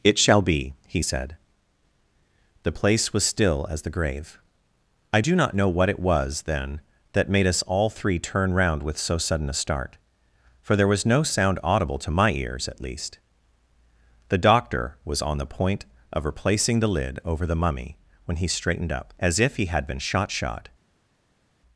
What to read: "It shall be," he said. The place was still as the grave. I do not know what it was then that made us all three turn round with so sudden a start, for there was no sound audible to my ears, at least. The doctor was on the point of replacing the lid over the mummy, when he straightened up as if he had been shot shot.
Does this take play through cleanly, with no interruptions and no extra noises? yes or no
yes